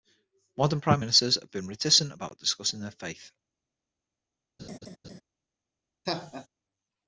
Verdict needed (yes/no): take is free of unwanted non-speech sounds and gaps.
no